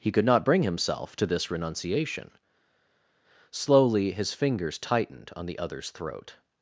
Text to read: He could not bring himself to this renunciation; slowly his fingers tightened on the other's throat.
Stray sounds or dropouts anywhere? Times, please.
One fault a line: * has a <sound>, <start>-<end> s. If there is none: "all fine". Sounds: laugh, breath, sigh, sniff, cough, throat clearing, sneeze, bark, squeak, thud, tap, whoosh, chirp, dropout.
all fine